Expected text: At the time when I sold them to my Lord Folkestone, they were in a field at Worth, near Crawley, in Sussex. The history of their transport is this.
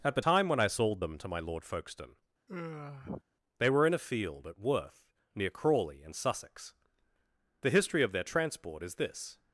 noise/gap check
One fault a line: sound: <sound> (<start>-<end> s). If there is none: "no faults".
sound: sigh (2.5-3.2 s)